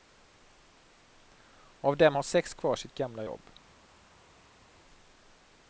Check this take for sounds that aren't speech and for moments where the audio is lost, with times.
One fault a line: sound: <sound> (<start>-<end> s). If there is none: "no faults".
no faults